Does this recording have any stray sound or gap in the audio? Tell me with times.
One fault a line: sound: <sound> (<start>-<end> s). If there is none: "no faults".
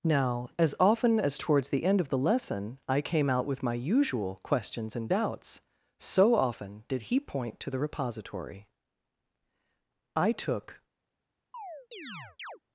sound: chirp (11.5-12.6 s)